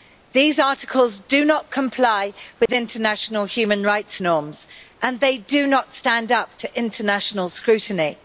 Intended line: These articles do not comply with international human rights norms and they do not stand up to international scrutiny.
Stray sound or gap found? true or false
true